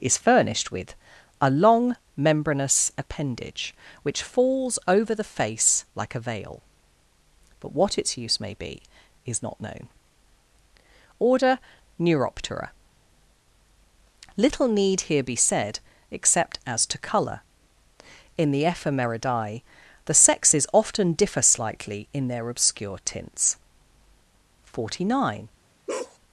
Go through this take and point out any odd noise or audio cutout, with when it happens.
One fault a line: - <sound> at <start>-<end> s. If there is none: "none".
- bark at 25.9-26.2 s